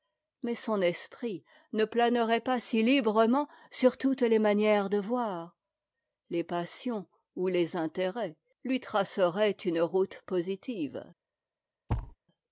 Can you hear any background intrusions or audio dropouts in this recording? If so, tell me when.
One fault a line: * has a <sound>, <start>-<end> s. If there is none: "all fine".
* has a thud, 11.9-12.2 s